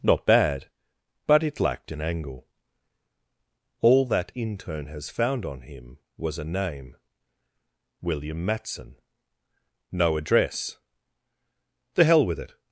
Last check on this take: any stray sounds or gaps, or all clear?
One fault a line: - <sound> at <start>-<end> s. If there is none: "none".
none